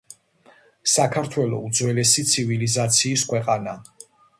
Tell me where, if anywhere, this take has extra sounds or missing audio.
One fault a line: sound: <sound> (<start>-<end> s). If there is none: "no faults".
no faults